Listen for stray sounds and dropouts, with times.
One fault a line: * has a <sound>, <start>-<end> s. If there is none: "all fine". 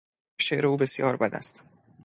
all fine